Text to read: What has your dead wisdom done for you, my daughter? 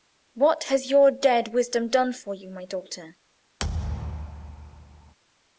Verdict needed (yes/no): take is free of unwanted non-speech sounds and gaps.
no